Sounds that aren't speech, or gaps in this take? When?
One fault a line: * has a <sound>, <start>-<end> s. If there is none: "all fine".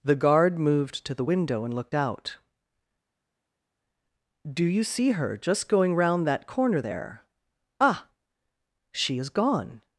all fine